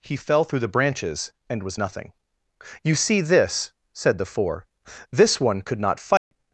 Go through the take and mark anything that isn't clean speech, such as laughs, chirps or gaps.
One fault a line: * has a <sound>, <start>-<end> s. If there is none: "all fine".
* has a dropout, 6.2-6.3 s